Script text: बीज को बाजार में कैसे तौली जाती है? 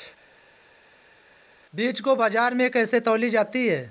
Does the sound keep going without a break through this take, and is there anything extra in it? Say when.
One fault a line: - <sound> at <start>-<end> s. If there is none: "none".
none